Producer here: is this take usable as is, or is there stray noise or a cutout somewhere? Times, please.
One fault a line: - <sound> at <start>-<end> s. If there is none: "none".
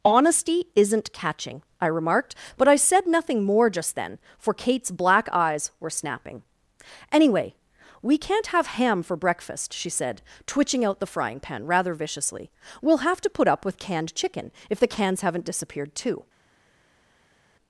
none